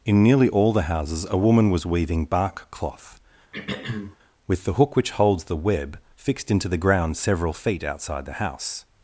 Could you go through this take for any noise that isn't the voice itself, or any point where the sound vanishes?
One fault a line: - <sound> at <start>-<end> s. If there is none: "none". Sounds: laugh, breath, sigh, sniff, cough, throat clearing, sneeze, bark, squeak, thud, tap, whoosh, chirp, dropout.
- throat clearing at 3.5-4.2 s